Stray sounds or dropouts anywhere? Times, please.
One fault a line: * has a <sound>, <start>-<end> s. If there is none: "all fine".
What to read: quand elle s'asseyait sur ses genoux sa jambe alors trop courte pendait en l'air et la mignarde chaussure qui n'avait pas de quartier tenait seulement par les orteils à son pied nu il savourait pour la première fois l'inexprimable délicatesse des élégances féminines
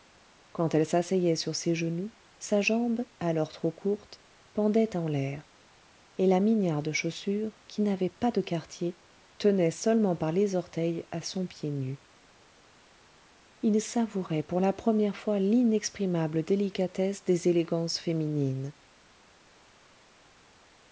all fine